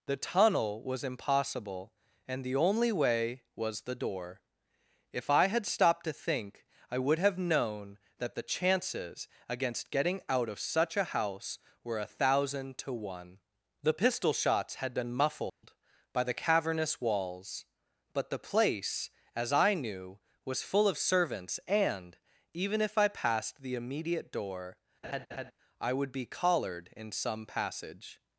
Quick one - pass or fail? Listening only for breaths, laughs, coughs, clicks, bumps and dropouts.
fail